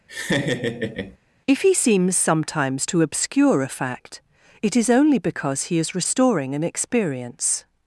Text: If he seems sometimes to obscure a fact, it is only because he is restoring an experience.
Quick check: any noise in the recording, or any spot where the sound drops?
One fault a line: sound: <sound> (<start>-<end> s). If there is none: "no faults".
sound: laugh (0.1-1.2 s)